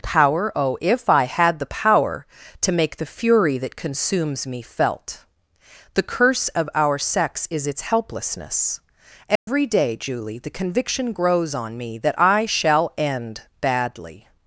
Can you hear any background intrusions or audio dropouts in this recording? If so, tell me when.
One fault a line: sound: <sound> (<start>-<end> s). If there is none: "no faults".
sound: dropout (9.4-9.5 s)